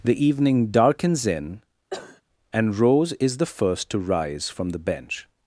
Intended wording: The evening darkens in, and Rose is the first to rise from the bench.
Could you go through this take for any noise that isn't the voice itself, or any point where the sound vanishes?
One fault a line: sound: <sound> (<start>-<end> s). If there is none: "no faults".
sound: cough (1.9-2.2 s)